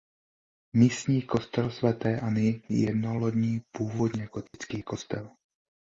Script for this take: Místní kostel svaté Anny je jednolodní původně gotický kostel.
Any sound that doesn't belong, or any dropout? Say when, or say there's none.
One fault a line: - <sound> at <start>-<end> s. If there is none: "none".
- dropout at 4.5-4.5 s